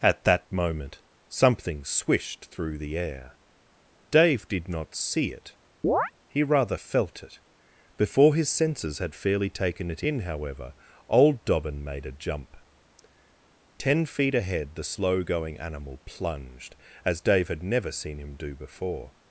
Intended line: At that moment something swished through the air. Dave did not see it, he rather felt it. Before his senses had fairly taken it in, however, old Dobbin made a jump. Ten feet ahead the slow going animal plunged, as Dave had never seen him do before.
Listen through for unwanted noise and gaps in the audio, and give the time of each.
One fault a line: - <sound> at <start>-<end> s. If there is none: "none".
- chirp at 5.8-6.1 s